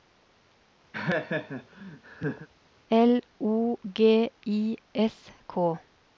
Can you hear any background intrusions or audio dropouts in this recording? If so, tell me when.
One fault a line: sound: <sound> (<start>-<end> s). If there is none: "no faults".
sound: laugh (0.9-2.5 s)